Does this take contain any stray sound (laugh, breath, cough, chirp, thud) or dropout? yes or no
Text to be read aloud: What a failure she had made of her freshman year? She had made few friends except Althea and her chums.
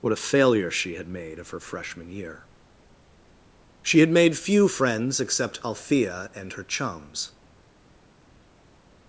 no